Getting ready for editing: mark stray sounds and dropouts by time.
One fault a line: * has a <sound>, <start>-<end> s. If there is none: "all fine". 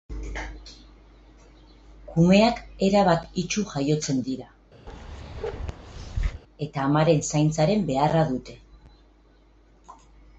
* has a bark, 4.9-6.4 s